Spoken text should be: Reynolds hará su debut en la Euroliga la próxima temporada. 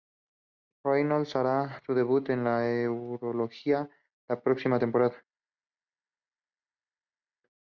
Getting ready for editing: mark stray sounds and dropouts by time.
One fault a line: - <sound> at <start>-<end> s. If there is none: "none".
none